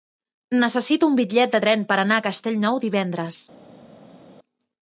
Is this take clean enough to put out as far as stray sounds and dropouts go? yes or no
yes